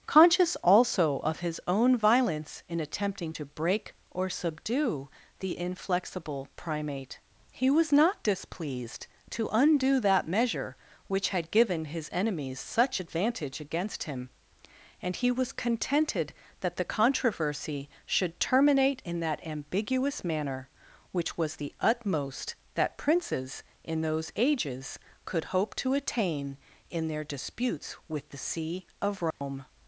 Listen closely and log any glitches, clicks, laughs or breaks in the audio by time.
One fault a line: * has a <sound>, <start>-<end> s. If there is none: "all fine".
* has a dropout, 29.3-29.4 s